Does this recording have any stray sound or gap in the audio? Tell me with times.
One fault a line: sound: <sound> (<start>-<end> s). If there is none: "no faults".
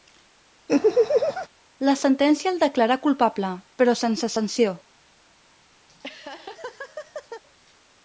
sound: laugh (0.7-1.5 s)
sound: laugh (5.9-7.4 s)